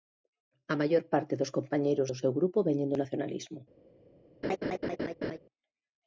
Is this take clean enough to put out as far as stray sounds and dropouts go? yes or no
no